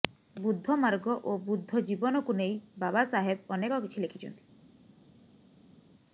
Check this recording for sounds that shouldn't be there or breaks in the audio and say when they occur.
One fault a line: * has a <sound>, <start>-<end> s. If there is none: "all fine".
all fine